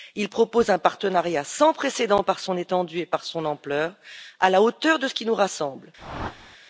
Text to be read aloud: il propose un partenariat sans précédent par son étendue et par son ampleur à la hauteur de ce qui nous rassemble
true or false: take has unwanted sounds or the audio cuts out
true